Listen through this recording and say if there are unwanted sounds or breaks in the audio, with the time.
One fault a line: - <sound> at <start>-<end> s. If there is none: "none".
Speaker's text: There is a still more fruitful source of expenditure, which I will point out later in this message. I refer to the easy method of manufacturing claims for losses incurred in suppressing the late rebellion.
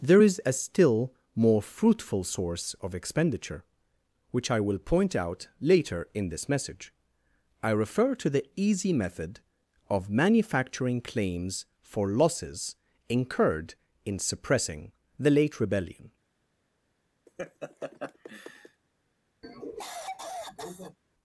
- laugh at 17.3-18.8 s
- cough at 19.4-21.0 s